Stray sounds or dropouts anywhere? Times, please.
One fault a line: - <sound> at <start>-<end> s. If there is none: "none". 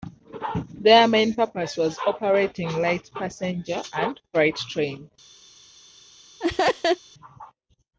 - laugh at 6.4-7.0 s